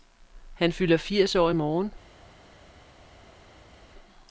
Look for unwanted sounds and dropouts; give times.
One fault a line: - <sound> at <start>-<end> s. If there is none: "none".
none